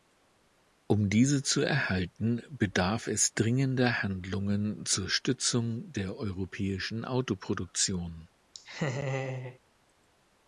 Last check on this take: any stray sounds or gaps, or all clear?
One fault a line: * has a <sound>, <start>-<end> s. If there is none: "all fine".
* has a laugh, 8.5-9.6 s